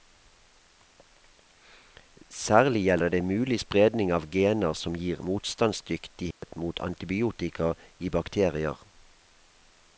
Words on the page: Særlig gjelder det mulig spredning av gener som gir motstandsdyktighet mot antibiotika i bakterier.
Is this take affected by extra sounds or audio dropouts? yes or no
yes